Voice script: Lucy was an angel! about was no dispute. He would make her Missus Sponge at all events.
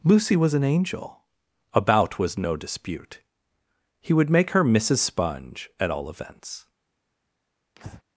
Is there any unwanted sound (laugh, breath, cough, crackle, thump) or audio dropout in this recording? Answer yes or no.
yes